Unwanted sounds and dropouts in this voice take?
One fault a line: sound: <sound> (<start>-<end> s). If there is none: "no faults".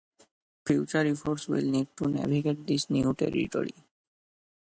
no faults